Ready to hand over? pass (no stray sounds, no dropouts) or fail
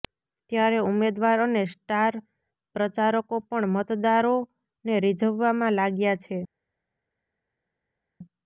pass